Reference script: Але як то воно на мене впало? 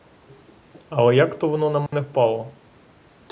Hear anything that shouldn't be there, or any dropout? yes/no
yes